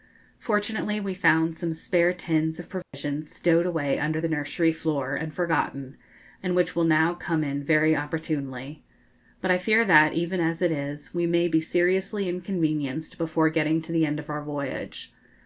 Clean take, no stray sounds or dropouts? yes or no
no